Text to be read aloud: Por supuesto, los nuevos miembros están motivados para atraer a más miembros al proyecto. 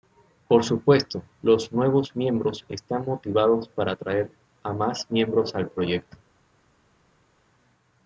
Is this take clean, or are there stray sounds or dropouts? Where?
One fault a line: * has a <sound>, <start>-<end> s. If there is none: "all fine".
all fine